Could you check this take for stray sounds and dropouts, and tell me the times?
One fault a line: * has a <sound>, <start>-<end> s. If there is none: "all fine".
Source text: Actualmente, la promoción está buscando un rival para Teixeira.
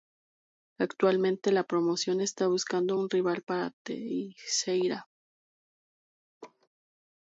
* has a laugh, 6.4-6.7 s